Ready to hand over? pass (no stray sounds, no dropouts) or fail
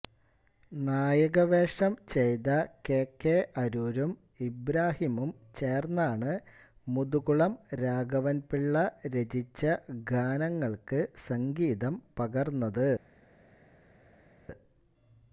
pass